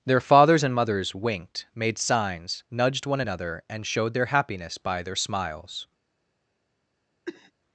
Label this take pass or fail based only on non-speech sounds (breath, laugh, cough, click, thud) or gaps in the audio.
fail